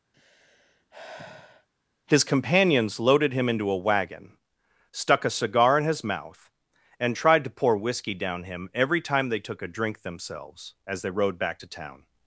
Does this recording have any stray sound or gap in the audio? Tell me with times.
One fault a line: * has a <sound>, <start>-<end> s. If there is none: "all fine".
* has a sigh, 0.1-1.7 s